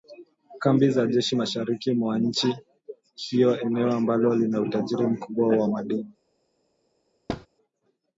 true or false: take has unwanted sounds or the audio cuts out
true